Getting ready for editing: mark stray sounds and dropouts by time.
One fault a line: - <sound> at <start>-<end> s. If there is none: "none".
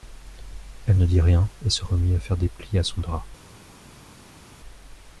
none